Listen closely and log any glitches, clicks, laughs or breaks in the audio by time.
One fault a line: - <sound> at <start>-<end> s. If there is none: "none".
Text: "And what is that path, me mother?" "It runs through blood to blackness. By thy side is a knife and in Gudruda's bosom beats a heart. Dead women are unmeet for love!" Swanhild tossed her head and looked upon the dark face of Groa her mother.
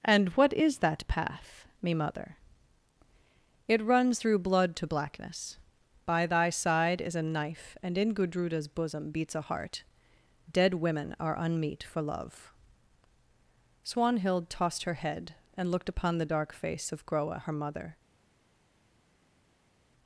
none